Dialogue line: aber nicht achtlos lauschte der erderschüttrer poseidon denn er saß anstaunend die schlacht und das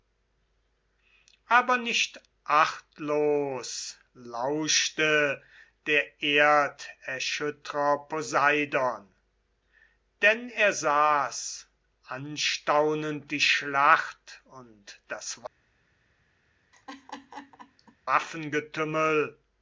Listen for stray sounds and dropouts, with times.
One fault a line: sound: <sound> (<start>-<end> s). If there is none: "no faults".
sound: laugh (16.7-18.0 s)